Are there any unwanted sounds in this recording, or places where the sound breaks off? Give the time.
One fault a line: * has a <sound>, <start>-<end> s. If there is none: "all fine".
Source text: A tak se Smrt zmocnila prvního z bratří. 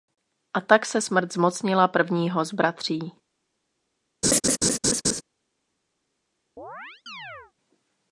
* has a laugh, 4.2-5.2 s
* has a chirp, 6.6-7.5 s